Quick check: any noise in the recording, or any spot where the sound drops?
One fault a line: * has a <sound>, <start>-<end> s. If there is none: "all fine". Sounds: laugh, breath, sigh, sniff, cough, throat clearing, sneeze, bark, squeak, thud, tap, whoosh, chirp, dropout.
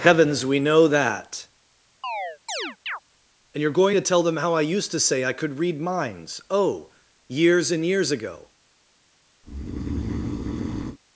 * has a chirp, 2.0-3.0 s
* has a breath, 9.4-11.0 s